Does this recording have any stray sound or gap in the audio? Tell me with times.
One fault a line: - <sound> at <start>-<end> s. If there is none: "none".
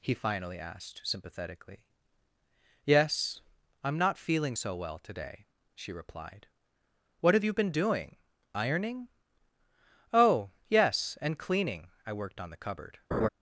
- laugh at 13.1-13.3 s